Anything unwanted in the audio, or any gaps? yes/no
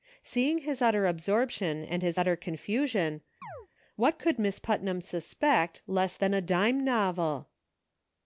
yes